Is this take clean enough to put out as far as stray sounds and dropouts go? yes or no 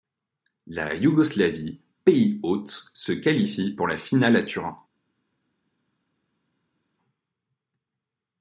yes